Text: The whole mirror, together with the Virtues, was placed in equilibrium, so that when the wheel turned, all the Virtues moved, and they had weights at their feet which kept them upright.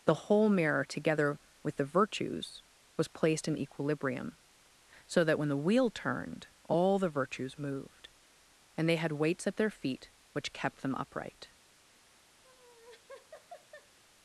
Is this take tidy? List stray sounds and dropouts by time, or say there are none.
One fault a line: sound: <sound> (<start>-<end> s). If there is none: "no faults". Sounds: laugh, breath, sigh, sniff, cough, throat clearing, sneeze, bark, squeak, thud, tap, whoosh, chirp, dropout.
sound: laugh (12.4-14.0 s)